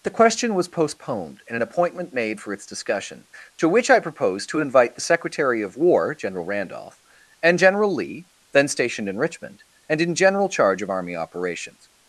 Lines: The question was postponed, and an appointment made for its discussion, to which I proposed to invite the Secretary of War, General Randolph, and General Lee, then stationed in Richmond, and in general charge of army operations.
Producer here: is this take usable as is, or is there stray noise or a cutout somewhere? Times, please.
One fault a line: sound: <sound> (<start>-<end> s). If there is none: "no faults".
no faults